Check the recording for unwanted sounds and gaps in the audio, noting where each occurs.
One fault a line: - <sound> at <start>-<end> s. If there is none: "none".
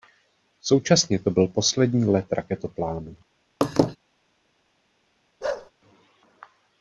- laugh at 3.6-4.0 s
- bark at 5.4-5.7 s